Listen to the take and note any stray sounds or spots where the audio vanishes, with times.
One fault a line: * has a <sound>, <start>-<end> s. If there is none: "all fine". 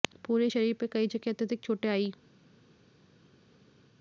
all fine